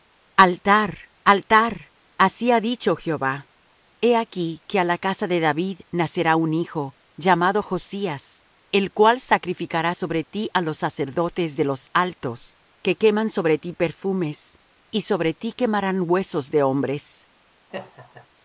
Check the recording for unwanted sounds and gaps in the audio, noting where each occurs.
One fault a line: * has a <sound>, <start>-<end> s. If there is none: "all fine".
* has a laugh, 17.7-18.3 s